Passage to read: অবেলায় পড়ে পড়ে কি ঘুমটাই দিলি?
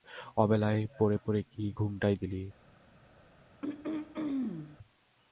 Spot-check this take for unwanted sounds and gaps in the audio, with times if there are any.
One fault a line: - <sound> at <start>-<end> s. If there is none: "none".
- throat clearing at 3.6-4.8 s